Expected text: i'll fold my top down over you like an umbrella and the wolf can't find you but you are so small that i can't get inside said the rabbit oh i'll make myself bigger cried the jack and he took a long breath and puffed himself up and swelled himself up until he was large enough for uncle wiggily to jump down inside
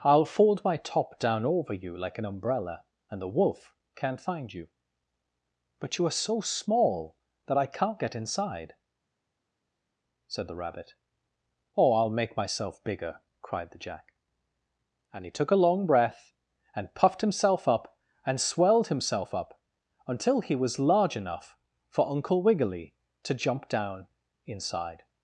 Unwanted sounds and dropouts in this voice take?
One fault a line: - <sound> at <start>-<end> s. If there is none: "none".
none